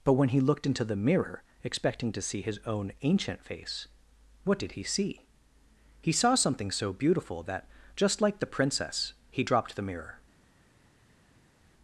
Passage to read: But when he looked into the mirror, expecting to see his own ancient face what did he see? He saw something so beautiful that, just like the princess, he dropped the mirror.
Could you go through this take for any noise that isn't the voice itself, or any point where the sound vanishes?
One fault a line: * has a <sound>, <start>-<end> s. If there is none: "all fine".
all fine